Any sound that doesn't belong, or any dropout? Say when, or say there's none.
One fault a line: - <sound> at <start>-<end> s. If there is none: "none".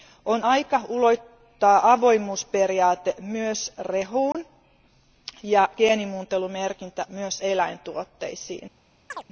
- dropout at 4.3-4.3 s
- chirp at 9.1-9.2 s